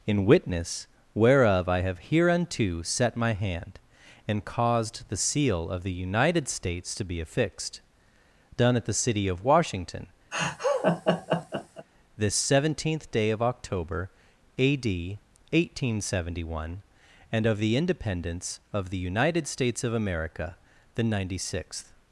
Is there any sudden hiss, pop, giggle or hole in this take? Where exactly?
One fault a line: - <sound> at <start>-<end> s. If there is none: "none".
- laugh at 10.3-11.9 s